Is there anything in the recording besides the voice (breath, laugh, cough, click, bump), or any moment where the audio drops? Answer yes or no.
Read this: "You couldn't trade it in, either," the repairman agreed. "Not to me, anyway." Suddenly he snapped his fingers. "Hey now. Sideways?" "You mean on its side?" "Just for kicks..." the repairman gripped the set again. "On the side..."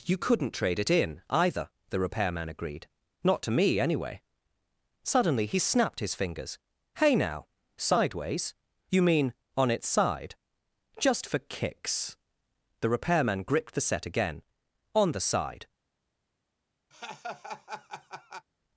yes